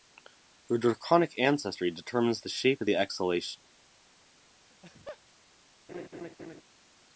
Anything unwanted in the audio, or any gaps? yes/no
yes